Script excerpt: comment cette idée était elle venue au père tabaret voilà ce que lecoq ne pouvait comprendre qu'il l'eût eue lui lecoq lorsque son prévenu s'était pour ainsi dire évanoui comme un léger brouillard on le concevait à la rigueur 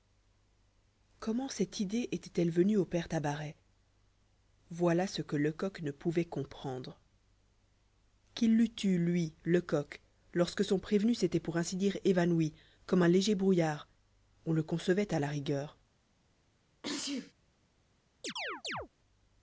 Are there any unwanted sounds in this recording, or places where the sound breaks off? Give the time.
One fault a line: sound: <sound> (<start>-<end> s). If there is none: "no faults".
sound: sneeze (16.8-17.3 s)
sound: chirp (18.2-18.9 s)